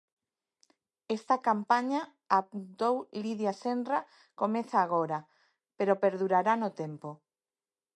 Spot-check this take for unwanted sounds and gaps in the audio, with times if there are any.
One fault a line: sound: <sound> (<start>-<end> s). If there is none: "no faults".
no faults